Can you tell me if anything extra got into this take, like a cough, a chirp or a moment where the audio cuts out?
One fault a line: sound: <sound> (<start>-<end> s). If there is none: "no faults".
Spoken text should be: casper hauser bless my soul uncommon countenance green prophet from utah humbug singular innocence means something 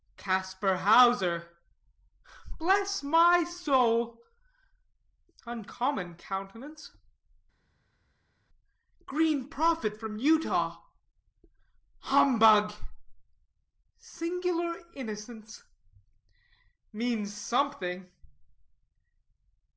no faults